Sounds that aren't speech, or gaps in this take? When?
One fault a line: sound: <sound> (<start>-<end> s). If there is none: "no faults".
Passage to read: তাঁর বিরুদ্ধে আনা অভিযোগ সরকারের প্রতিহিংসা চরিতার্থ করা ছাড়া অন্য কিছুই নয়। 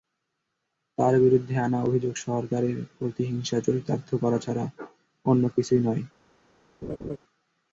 sound: laugh (6.8-7.2 s)